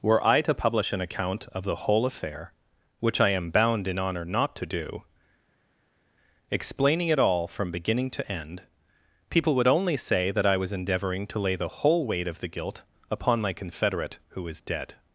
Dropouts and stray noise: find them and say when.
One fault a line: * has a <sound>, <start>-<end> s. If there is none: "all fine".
all fine